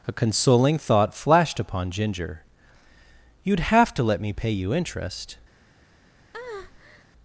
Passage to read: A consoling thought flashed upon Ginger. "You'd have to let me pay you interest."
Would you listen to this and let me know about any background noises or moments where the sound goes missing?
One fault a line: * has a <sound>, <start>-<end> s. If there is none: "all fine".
* has a breath, 6.3-7.1 s